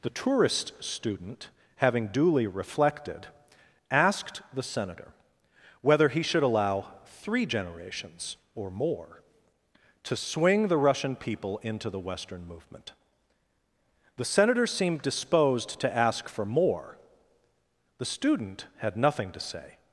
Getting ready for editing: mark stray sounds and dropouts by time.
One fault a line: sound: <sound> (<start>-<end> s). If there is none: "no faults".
no faults